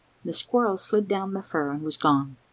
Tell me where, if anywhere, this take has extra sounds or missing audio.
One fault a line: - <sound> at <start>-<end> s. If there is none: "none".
none